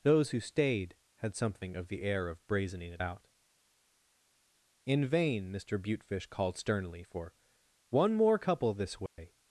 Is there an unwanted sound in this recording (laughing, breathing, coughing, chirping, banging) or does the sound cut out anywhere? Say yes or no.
yes